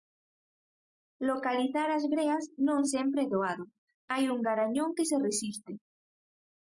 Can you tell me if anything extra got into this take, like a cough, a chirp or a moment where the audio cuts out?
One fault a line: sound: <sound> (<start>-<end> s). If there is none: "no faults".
no faults